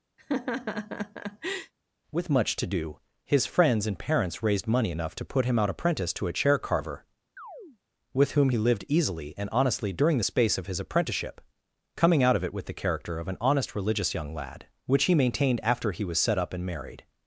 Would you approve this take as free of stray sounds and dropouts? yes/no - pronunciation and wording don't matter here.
no